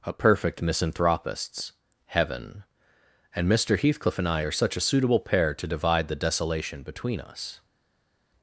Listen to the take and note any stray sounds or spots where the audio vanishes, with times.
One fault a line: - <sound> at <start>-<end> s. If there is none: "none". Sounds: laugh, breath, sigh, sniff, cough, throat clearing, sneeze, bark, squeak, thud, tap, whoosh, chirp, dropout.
none